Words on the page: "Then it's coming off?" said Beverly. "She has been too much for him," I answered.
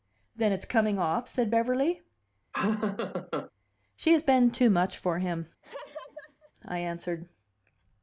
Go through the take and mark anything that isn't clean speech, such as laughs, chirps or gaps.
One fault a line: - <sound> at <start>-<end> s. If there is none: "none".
- laugh at 2.5-3.5 s
- laugh at 5.6-6.5 s